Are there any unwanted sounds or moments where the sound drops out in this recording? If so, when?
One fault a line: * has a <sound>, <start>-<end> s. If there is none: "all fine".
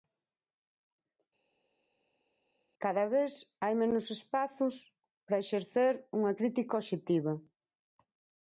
all fine